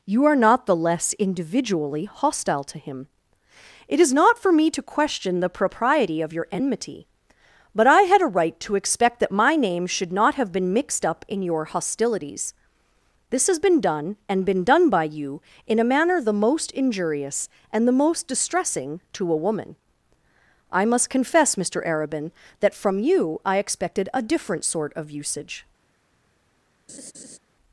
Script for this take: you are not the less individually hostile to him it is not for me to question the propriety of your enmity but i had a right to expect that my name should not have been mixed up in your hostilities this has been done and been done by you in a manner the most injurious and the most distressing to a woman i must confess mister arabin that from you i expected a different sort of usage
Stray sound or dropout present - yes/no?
yes